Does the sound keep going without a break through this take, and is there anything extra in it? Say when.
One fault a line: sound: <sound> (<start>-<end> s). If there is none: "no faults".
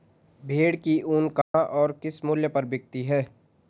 sound: dropout (1.4-1.5 s)